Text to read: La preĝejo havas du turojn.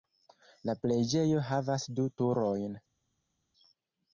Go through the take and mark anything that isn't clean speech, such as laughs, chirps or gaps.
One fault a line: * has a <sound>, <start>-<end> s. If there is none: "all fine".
all fine